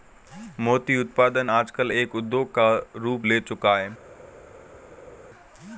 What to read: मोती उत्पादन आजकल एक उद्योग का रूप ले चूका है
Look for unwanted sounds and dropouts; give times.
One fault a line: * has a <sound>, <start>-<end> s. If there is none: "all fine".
all fine